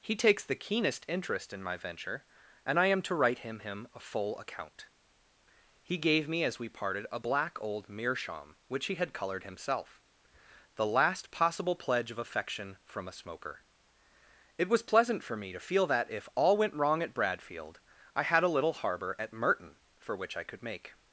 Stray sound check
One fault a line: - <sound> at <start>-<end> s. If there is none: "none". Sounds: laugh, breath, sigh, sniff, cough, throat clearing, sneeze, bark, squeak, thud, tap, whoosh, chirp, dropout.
none